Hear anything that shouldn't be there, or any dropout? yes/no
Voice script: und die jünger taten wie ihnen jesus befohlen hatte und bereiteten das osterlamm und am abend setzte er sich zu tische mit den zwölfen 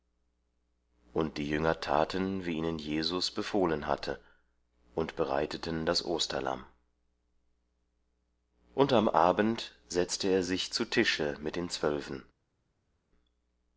no